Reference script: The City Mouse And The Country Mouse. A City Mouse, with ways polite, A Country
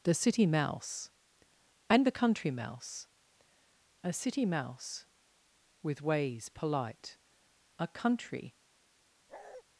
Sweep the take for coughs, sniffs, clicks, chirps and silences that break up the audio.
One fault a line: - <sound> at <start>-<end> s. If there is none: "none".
- bark at 9.3-9.6 s